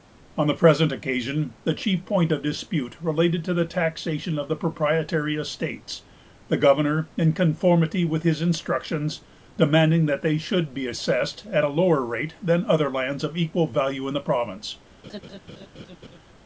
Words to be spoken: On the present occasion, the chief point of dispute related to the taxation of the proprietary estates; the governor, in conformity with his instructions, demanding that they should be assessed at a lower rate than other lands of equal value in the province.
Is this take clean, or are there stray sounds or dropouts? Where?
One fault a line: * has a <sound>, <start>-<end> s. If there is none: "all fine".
* has a laugh, 15.0-16.2 s